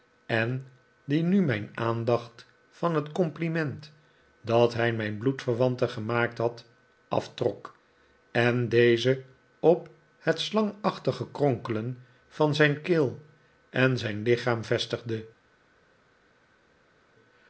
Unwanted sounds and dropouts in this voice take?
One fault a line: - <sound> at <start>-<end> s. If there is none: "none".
none